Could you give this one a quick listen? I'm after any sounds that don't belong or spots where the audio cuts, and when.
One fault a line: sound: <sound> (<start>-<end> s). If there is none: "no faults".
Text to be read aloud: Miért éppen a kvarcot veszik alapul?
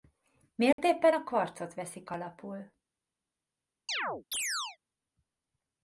sound: dropout (0.7-0.8 s)
sound: chirp (3.9-4.8 s)